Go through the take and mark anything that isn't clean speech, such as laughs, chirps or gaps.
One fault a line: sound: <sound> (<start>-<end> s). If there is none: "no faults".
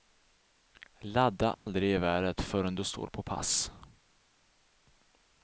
sound: dropout (1.5-1.7 s)